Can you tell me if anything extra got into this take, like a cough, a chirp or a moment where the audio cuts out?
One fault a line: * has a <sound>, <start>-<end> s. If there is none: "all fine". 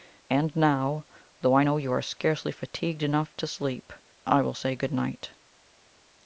all fine